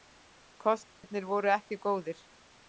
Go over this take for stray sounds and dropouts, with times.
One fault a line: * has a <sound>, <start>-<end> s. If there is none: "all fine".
* has a dropout, 0.9-1.0 s